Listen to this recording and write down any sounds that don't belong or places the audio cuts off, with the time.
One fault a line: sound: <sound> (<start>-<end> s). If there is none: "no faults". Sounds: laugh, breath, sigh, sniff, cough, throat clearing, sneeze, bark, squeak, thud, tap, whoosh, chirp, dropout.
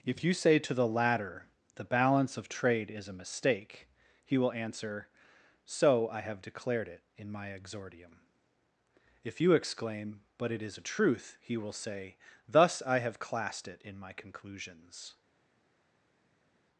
no faults